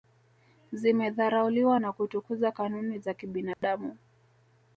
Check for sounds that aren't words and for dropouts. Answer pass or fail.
fail